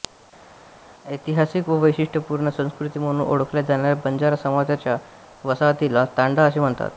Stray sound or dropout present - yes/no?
no